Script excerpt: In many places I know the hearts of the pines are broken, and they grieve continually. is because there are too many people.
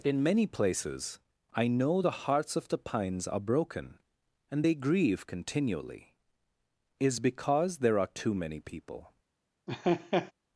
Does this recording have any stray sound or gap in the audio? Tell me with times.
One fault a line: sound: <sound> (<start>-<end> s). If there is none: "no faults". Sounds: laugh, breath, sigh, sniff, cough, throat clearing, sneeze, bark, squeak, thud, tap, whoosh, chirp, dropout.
sound: laugh (9.7-10.3 s)